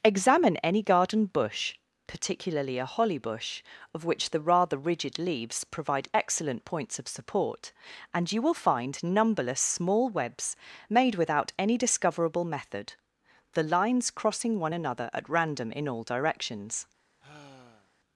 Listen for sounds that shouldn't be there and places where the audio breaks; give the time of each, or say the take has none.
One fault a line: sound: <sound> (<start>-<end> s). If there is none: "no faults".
sound: sigh (17.2-17.9 s)